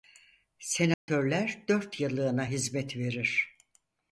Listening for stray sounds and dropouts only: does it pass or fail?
fail